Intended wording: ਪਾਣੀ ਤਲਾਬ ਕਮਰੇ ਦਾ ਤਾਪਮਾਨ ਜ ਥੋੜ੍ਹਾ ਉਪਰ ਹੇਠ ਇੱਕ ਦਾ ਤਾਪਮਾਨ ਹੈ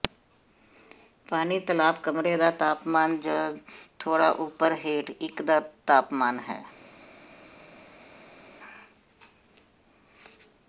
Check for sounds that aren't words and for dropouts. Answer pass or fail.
pass